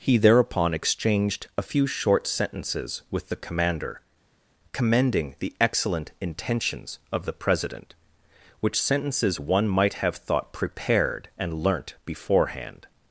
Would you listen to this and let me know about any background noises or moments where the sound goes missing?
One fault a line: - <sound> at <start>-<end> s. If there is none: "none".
none